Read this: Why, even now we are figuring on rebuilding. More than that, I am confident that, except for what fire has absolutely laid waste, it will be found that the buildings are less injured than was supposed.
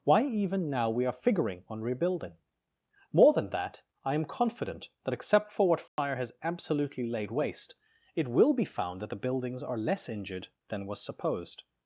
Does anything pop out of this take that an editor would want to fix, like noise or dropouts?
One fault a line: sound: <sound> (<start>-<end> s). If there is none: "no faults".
sound: dropout (5.9-6.0 s)